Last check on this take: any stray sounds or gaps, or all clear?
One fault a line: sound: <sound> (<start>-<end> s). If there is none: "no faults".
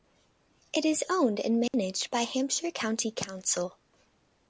sound: dropout (1.7-1.7 s)